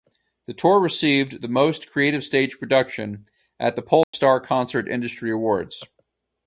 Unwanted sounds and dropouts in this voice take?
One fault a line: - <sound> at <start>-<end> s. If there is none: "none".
- dropout at 4.0-4.1 s